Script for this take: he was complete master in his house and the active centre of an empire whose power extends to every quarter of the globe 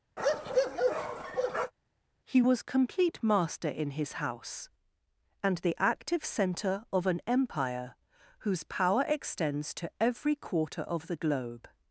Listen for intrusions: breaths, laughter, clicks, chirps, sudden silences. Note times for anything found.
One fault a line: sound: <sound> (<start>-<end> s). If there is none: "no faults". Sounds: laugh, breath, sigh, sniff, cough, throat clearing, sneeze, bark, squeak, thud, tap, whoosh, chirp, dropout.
sound: bark (0.2-1.7 s)